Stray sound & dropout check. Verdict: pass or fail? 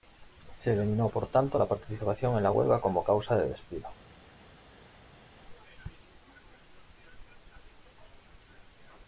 pass